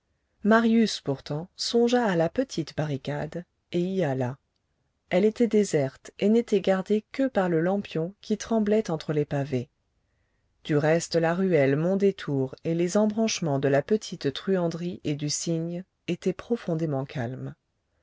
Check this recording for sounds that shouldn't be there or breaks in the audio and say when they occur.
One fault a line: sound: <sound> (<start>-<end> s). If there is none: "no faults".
no faults